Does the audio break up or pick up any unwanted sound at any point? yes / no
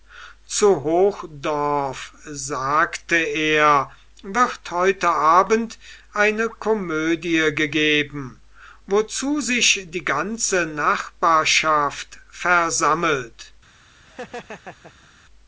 yes